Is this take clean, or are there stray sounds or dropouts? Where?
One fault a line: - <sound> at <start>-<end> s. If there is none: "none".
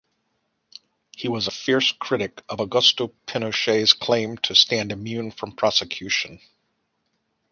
none